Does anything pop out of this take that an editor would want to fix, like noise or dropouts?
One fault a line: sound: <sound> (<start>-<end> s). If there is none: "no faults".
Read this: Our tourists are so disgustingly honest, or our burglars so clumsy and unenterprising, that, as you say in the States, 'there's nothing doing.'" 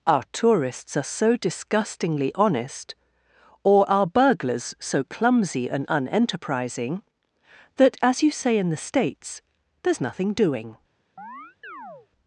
sound: chirp (11.2-12.1 s)